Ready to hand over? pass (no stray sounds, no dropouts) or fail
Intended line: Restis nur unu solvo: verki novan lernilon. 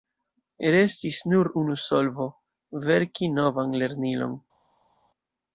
pass